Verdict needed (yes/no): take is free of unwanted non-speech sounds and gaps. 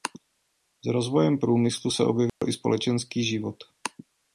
no